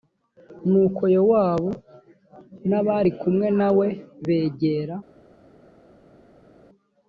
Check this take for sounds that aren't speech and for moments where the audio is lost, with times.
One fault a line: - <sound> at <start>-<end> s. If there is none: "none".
none